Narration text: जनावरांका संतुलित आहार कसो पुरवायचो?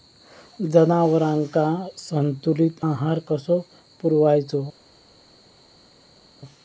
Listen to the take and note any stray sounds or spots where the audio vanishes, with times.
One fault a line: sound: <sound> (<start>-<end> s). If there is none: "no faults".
no faults